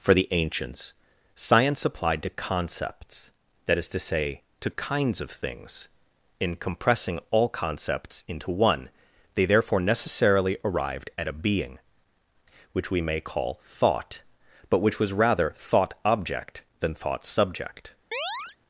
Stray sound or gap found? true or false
true